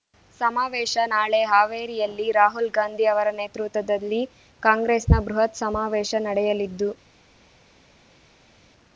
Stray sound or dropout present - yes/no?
no